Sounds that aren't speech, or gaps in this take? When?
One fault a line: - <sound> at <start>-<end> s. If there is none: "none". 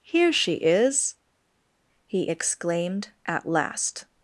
none